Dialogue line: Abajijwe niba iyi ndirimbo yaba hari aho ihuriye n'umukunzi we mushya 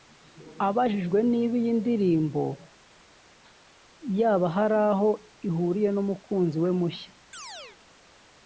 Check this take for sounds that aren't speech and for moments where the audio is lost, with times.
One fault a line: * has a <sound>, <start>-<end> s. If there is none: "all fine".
* has a chirp, 7.3-7.8 s